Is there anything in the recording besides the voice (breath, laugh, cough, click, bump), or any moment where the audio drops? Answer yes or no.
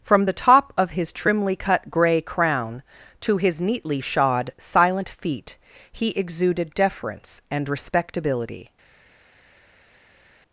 no